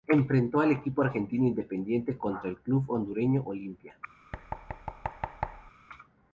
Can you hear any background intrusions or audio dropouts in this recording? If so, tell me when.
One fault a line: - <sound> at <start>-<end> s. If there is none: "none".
- thud at 4.3-5.7 s